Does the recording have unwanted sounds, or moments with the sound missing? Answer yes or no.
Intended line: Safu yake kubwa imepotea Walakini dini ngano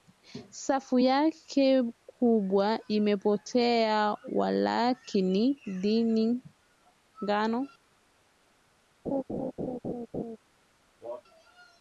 yes